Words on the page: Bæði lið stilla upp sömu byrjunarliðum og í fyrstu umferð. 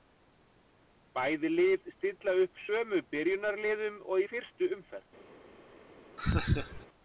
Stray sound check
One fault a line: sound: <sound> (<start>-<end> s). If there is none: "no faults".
sound: laugh (6.2-6.9 s)